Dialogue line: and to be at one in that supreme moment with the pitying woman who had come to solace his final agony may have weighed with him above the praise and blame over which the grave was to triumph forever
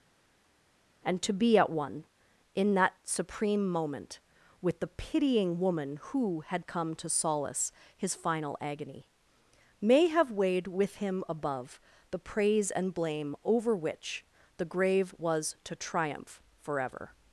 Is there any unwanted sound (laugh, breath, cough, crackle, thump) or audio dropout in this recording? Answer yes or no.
no